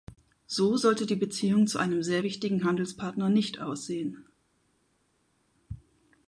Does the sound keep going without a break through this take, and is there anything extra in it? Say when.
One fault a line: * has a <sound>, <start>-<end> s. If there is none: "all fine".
all fine